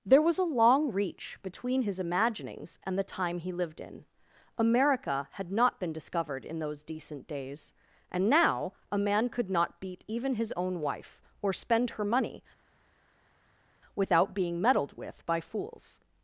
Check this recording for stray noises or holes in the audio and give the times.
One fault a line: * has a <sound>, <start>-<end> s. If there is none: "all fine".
all fine